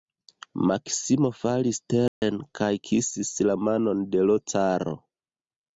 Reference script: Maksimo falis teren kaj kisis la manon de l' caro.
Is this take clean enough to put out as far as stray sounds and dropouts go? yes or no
no